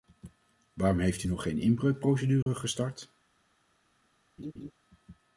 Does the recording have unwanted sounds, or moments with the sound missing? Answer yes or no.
yes